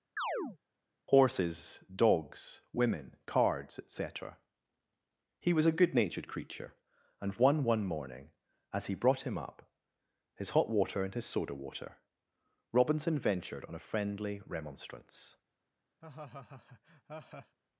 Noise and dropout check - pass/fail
fail